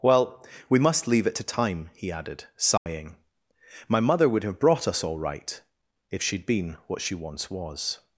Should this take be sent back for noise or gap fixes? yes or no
yes